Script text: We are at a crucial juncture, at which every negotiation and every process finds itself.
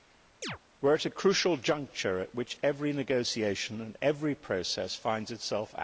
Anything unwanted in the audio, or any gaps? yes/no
yes